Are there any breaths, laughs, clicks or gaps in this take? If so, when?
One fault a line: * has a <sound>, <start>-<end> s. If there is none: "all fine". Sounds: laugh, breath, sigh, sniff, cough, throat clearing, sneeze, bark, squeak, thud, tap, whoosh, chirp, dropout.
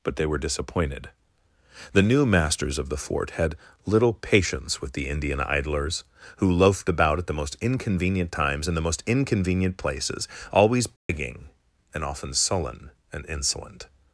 * has a dropout, 11.0-11.1 s